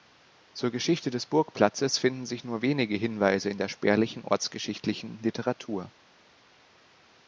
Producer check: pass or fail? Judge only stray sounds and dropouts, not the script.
pass